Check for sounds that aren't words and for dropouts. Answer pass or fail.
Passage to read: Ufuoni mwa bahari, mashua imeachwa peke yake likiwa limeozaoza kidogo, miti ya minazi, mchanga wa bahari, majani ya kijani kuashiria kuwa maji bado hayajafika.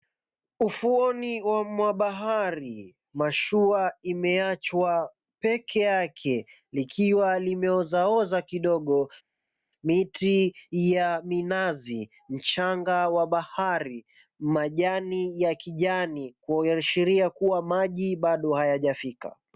pass